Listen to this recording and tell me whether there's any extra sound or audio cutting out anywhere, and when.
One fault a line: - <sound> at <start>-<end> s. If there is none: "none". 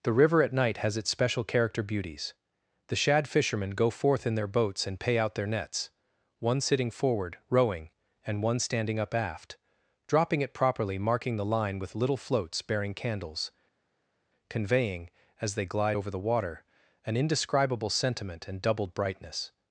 none